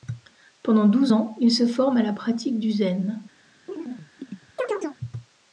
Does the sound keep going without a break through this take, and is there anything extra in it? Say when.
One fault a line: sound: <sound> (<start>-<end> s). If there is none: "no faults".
sound: chirp (3.7-5.0 s)